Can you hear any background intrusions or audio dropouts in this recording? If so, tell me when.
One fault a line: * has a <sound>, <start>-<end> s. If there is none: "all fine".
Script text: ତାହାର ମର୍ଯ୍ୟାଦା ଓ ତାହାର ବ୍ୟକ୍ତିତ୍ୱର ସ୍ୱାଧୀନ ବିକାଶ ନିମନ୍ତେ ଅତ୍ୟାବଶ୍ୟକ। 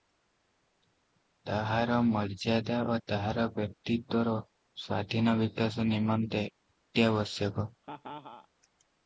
* has a laugh, 7.8-8.5 s